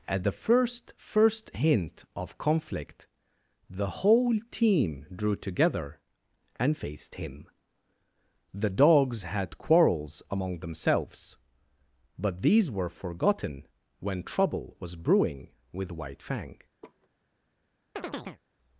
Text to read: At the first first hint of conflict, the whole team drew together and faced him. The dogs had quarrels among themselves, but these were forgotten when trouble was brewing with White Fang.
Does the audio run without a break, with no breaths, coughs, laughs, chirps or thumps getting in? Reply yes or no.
no